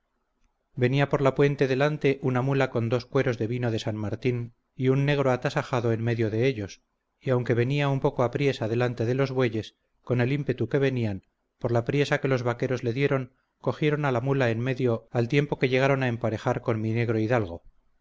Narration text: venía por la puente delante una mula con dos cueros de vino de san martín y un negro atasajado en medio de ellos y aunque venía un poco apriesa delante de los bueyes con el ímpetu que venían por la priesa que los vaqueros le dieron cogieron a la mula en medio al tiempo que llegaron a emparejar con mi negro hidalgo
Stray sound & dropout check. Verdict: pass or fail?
pass